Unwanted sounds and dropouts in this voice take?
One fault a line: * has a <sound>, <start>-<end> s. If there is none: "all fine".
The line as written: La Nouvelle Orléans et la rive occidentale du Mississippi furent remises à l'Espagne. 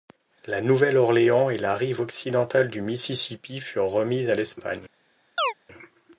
* has a chirp, 5.4-5.5 s